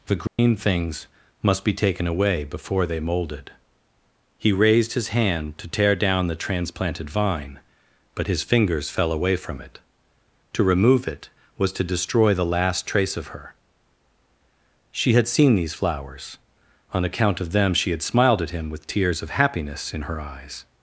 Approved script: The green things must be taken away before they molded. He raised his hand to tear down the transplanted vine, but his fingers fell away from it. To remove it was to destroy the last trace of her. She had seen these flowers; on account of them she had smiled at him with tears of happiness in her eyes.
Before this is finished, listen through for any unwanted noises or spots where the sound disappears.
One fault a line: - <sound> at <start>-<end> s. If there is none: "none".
- dropout at 0.3-0.4 s